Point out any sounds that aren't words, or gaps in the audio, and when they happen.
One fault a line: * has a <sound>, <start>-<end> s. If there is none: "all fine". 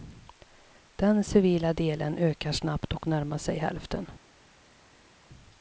all fine